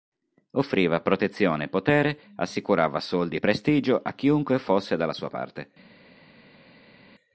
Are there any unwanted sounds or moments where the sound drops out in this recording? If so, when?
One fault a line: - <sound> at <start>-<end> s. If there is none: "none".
none